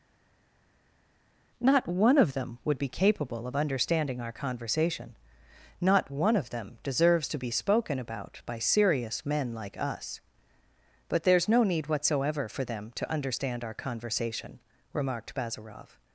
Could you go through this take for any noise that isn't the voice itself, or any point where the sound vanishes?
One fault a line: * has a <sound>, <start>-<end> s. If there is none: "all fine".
all fine